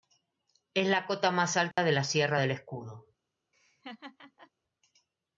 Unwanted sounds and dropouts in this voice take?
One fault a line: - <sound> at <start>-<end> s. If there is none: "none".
- dropout at 1.7-1.8 s
- laugh at 3.5-4.5 s